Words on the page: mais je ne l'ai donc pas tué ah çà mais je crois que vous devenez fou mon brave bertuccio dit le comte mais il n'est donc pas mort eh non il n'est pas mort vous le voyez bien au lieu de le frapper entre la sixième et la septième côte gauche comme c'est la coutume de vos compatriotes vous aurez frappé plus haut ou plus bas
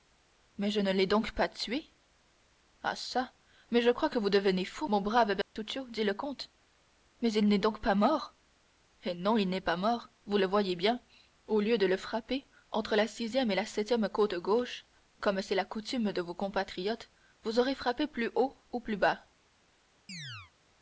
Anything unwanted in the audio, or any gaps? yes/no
yes